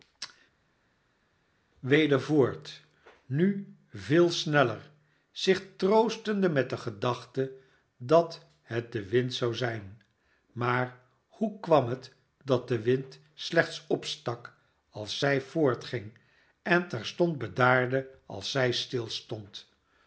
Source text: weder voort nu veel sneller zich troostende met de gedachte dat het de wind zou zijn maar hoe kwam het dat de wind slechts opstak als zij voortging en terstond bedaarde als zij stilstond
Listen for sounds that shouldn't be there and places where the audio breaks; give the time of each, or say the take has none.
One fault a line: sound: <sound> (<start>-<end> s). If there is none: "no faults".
no faults